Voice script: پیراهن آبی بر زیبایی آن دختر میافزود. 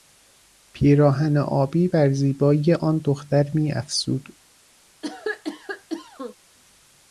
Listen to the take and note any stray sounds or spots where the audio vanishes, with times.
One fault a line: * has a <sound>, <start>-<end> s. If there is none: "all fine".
* has a cough, 5.0-6.3 s